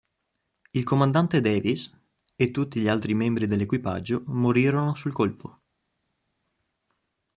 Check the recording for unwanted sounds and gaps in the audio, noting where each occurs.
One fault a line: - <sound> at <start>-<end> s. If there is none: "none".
none